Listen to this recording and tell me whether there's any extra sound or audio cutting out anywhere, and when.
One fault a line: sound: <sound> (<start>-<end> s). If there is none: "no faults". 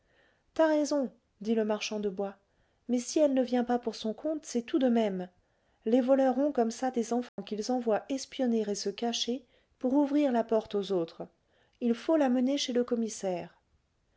sound: dropout (7.3-7.4 s)